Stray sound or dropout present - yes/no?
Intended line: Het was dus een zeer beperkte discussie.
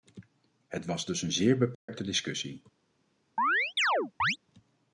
yes